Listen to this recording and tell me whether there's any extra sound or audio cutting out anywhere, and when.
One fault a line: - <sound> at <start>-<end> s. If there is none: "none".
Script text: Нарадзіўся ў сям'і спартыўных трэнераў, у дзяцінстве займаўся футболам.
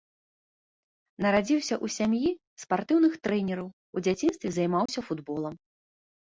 - dropout at 4.9-4.9 s